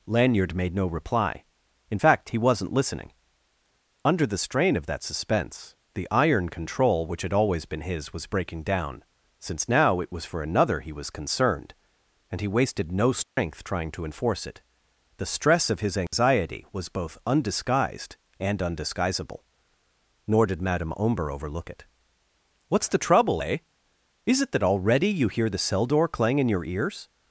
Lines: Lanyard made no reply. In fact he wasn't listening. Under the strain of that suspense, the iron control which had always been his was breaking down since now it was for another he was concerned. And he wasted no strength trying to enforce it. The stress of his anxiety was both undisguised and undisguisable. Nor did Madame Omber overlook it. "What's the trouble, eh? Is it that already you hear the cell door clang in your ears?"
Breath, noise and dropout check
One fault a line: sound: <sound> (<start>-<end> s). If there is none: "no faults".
sound: dropout (13.2-13.4 s)
sound: dropout (16.1-16.1 s)